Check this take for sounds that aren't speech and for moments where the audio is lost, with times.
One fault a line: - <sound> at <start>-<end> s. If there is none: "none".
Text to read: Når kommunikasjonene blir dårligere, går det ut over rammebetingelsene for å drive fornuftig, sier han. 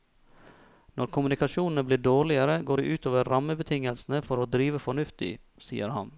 none